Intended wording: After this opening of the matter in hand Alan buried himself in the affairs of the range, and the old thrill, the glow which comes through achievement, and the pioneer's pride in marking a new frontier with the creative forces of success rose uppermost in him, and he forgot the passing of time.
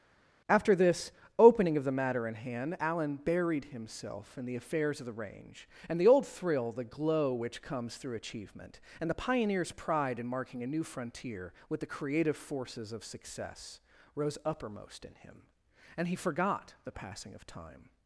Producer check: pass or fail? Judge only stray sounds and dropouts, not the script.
pass